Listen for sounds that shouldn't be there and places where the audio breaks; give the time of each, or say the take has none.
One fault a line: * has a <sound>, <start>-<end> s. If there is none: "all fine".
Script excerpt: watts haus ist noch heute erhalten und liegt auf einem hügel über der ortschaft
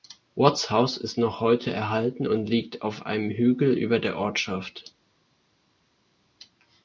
all fine